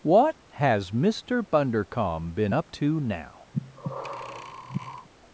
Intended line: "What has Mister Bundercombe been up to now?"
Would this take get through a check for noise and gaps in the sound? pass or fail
fail